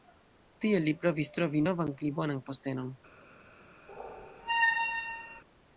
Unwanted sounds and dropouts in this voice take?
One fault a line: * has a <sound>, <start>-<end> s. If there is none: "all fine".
* has a squeak, 3.9-5.4 s